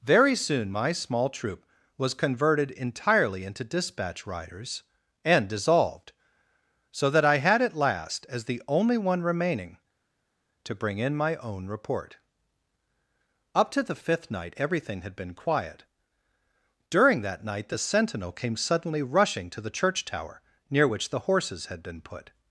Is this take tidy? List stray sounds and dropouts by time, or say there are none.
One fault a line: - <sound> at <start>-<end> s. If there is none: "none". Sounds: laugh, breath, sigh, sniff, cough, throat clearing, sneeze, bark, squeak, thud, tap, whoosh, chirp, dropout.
none